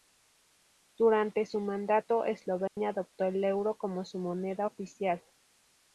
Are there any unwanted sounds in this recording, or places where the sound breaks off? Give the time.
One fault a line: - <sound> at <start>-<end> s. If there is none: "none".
- dropout at 2.7-2.8 s